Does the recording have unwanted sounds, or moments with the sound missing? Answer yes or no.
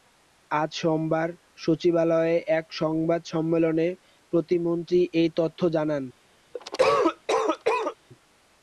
yes